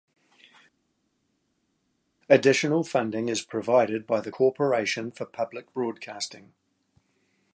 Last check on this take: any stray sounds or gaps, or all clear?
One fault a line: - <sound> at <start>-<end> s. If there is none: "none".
none